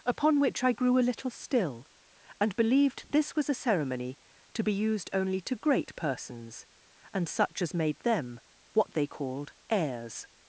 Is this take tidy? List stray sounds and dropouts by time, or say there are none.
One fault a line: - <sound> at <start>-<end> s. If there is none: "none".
none